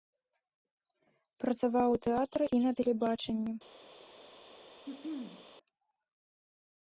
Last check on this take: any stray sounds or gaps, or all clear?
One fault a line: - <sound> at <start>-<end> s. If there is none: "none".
- throat clearing at 4.9-5.5 s